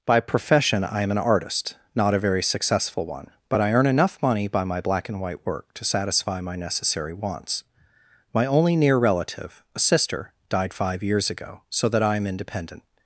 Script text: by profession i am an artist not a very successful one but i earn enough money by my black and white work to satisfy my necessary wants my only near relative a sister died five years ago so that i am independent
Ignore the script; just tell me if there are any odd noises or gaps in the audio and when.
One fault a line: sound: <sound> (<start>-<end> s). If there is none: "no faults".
no faults